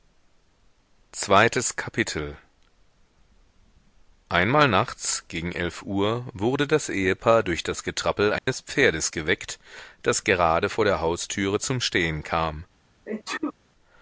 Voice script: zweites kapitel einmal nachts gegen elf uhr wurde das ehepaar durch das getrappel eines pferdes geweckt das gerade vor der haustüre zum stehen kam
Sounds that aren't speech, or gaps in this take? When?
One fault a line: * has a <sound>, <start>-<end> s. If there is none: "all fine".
* has a dropout, 8.4-8.5 s
* has a sneeze, 13.1-13.5 s